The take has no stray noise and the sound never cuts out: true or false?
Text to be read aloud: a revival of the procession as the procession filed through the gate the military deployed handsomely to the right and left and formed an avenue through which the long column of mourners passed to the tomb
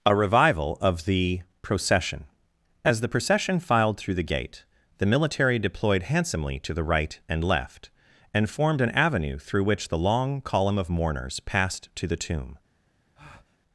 false